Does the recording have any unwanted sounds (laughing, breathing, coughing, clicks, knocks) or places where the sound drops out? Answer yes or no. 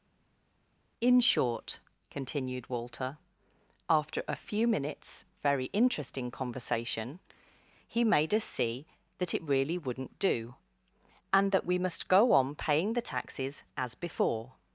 no